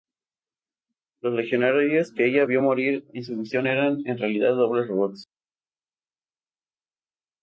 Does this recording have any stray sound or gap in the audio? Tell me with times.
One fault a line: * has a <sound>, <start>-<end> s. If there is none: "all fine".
all fine